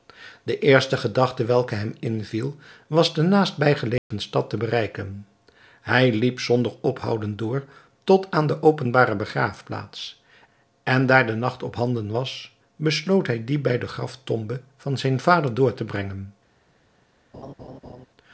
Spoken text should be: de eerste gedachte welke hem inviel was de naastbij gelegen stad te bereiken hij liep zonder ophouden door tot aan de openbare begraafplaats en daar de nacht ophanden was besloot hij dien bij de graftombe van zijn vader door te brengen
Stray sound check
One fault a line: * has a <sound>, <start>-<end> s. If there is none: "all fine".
* has a dropout, 4.0-4.1 s
* has a laugh, 17.3-18.1 s